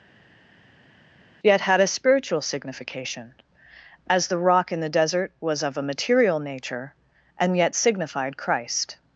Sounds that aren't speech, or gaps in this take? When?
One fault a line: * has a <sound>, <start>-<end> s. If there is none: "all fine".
all fine